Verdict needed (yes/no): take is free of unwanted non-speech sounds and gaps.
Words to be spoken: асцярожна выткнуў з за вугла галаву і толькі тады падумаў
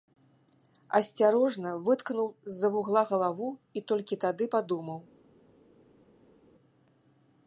yes